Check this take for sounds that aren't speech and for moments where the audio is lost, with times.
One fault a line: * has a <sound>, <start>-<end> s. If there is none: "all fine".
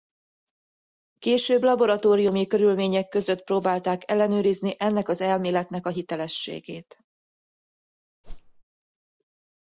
* has a whoosh, 8.2-8.6 s